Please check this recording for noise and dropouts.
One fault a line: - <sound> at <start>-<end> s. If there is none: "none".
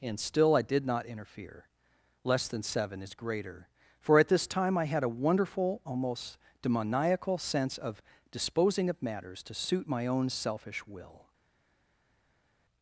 none